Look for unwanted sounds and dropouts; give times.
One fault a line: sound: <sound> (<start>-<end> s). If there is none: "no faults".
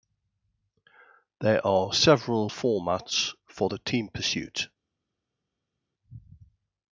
no faults